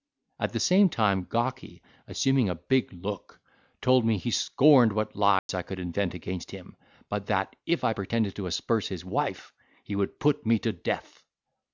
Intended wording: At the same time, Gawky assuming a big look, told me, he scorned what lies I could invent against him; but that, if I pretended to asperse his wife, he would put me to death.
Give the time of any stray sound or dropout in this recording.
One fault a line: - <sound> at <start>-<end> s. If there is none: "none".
- dropout at 5.4-5.5 s